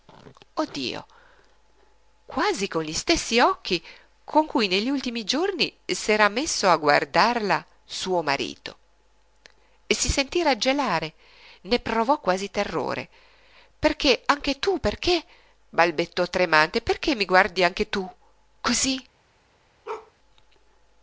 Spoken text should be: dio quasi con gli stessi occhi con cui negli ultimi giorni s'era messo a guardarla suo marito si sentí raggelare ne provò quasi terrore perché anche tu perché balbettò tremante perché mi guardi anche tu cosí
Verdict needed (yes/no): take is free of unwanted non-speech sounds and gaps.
no